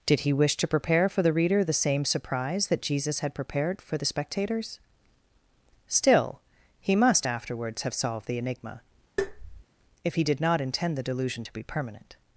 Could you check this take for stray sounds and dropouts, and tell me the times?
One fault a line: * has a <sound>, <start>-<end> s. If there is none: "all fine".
* has a tap, 9.2-9.6 s